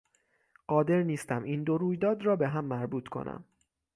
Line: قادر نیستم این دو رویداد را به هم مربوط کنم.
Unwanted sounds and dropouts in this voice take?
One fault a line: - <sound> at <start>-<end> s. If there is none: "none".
none